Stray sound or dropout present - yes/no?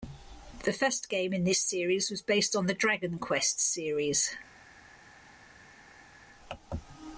no